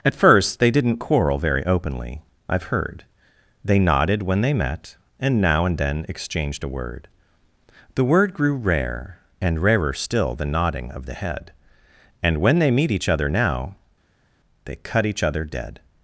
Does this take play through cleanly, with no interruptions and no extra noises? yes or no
yes